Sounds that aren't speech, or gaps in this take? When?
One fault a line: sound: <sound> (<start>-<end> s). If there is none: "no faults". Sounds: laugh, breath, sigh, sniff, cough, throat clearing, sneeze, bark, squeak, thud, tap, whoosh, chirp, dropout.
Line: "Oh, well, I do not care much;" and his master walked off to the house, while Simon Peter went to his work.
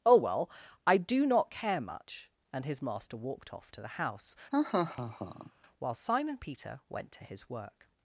sound: laugh (4.5-5.5 s)